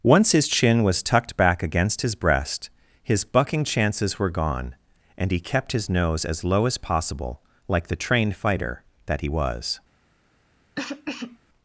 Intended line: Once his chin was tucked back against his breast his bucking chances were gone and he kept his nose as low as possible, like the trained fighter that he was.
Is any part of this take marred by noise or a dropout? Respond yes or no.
yes